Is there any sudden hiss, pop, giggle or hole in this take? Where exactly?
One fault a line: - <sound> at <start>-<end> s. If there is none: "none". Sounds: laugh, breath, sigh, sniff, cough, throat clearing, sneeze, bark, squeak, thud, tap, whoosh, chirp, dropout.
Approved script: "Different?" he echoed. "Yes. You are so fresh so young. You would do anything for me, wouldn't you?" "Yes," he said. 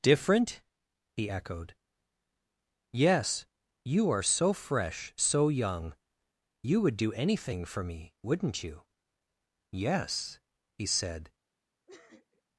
- sniff at 11.9-12.4 s